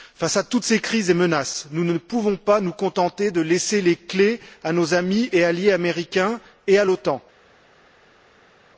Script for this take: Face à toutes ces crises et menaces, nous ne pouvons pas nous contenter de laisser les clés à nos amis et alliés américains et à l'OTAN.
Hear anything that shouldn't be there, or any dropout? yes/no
no